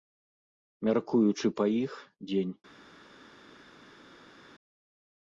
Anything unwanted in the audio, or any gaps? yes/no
no